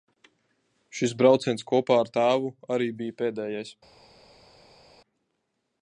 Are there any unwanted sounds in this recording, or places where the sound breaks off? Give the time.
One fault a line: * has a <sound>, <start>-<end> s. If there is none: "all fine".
all fine